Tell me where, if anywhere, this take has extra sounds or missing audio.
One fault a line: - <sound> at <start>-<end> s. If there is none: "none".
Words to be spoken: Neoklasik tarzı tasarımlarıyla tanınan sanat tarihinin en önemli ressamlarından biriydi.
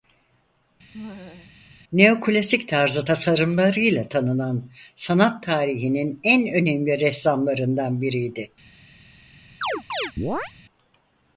- laugh at 0.9-1.6 s
- chirp at 9.6-10.5 s